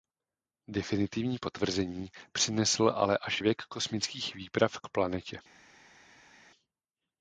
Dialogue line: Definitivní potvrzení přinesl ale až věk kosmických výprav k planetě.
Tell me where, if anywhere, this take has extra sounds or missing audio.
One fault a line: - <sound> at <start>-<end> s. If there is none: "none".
none